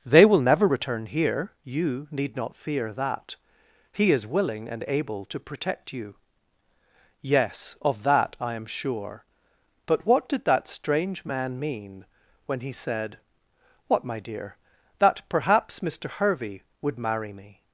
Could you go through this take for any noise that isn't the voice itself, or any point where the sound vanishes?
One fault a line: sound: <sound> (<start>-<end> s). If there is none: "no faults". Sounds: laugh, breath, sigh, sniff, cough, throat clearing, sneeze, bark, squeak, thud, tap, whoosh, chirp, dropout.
no faults